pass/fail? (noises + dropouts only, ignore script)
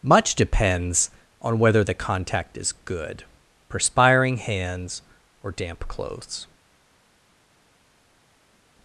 pass